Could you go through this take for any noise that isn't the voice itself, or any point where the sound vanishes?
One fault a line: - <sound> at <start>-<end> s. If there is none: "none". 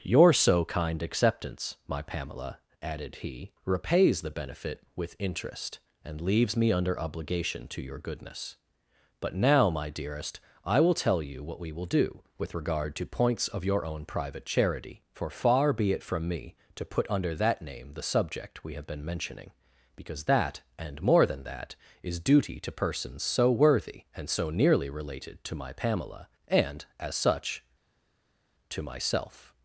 none